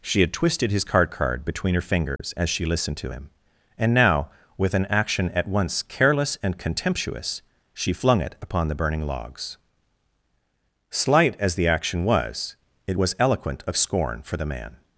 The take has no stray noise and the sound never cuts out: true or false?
false